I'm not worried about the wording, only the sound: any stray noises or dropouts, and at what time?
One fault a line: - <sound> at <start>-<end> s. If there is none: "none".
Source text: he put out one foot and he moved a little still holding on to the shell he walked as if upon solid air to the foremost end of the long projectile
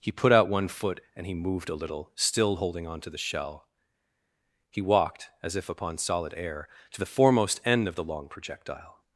none